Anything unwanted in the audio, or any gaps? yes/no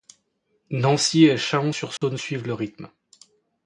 yes